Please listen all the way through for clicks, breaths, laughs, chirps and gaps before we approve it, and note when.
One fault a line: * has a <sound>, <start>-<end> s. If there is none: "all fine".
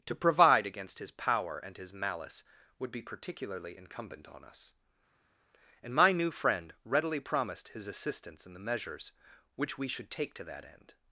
all fine